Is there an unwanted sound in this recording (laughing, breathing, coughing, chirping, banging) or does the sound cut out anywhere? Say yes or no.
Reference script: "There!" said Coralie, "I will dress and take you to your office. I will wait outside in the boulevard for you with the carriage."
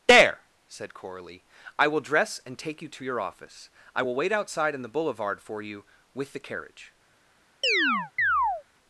yes